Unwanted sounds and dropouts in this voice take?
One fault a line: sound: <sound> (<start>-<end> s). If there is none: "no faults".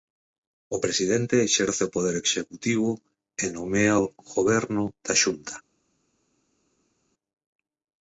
no faults